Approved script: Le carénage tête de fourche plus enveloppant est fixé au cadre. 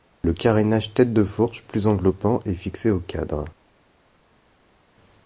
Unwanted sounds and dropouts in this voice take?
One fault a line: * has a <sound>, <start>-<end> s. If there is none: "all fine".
all fine